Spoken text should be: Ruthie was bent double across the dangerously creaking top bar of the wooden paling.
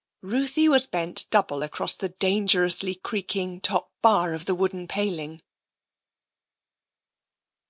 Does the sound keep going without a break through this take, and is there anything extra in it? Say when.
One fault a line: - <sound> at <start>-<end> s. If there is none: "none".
none